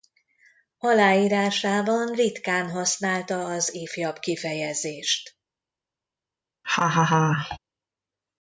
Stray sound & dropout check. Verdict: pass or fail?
fail